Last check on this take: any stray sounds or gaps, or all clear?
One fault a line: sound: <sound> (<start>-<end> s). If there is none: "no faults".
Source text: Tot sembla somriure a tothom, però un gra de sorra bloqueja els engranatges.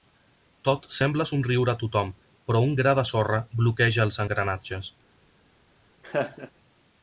sound: laugh (6.0-6.5 s)